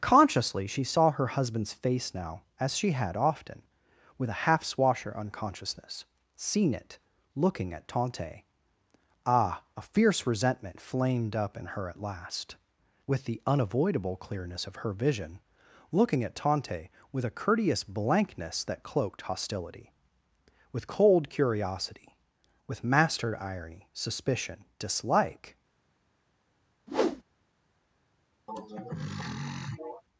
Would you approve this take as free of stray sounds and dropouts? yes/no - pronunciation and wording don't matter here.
no